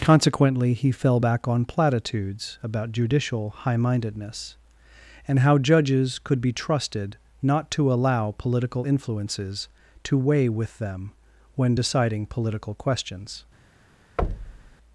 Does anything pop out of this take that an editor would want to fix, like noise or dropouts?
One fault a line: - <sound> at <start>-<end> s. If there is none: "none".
- thud at 14.2-14.8 s